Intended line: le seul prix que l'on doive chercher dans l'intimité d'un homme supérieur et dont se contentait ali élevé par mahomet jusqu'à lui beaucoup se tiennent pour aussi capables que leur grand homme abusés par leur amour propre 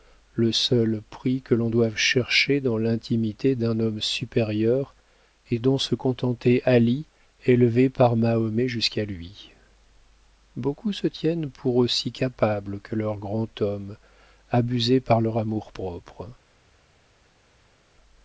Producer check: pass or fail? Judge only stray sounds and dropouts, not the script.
pass